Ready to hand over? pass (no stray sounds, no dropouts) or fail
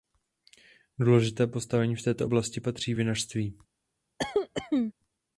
fail